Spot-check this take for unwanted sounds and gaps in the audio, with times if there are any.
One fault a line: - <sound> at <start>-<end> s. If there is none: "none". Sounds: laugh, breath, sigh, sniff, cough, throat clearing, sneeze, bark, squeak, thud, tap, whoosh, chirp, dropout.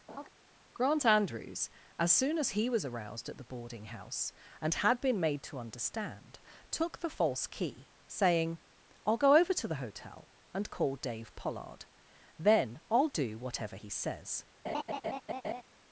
- laugh at 0.1-0.3 s
- laugh at 14.7-15.6 s